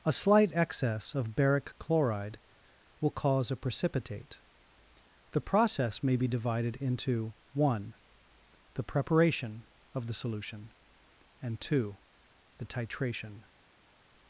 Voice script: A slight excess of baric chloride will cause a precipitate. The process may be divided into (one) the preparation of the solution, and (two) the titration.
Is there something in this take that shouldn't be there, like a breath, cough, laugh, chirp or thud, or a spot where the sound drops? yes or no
no